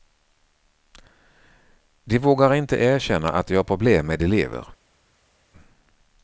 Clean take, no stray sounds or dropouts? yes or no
yes